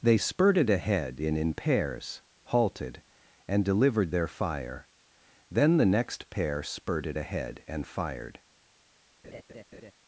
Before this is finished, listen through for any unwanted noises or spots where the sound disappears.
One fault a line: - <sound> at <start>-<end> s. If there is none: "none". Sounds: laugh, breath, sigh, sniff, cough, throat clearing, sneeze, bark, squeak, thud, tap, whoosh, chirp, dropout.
- laugh at 9.2-9.9 s